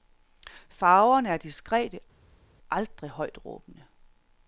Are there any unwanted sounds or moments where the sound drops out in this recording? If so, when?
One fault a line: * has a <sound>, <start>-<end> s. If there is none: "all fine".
all fine